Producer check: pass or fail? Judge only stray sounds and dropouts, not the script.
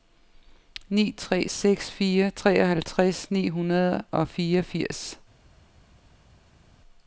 pass